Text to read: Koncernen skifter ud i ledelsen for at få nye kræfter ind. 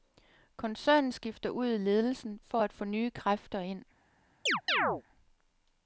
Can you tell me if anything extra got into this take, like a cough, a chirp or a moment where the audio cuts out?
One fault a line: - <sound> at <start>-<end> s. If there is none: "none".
- chirp at 4.5-5.0 s